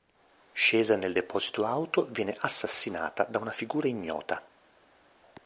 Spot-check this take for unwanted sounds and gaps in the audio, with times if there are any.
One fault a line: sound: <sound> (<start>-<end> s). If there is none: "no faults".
no faults